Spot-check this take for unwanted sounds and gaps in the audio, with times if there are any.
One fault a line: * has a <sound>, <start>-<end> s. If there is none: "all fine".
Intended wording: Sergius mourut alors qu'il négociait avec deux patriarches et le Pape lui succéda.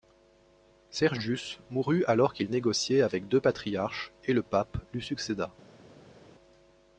all fine